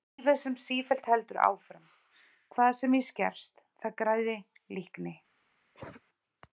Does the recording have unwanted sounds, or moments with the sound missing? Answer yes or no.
yes